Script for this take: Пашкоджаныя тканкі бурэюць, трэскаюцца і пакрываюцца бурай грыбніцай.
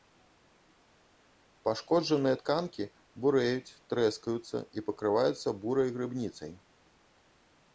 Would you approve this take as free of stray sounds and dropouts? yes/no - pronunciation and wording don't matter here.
yes